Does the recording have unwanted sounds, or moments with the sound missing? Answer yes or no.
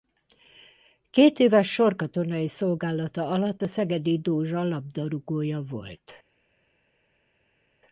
no